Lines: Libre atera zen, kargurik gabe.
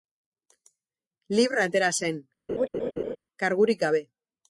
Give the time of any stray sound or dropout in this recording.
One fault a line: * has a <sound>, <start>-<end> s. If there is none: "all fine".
* has a laugh, 2.5-3.2 s